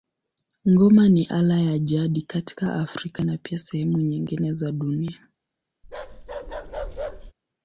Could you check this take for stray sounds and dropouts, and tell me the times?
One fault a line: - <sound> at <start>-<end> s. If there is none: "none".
- bark at 5.8-7.3 s